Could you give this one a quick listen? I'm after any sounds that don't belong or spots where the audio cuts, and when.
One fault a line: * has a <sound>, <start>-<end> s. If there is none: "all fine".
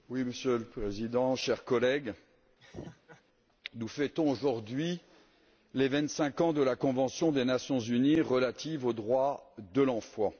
* has a laugh, 2.6-3.2 s